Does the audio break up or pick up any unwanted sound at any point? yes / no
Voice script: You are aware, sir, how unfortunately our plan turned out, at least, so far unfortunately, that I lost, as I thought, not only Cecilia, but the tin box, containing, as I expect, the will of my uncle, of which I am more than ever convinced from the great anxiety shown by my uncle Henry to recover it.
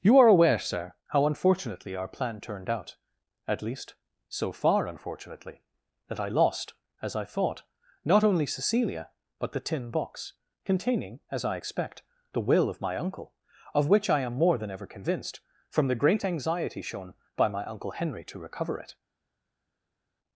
no